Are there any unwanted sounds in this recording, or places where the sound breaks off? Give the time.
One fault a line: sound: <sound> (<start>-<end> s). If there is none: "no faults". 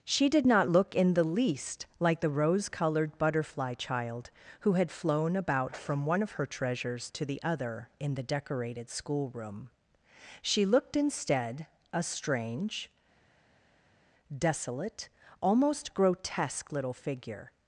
no faults